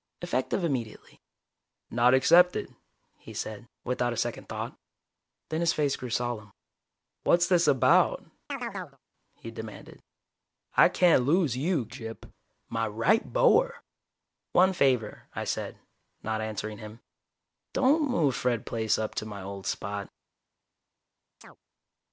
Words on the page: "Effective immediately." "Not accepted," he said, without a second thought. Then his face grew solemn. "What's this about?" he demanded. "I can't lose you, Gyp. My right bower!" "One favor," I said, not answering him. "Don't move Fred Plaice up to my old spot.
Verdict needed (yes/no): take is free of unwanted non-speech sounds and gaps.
no